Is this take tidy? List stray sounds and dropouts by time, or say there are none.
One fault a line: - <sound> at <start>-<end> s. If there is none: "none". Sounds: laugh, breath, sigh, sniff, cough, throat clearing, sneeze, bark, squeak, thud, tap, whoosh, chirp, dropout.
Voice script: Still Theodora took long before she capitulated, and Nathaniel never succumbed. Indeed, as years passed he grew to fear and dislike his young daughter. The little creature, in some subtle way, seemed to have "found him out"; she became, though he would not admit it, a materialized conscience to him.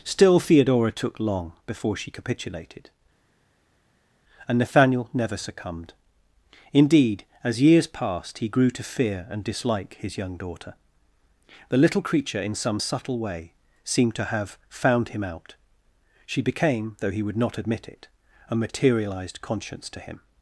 none